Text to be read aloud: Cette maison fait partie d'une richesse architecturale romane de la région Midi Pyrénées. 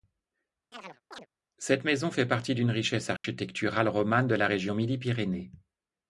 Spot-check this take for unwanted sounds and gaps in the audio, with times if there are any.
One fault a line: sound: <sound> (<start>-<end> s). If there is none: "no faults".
sound: chirp (0.7-1.3 s)
sound: dropout (3.2-3.2 s)